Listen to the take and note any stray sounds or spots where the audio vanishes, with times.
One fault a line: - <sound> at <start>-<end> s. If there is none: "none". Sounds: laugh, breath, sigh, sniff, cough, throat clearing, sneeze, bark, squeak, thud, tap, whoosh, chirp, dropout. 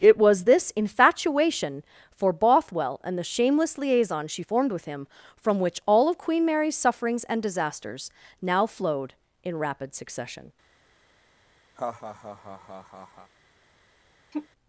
- laugh at 11.8-13.3 s
- sigh at 14.3-14.5 s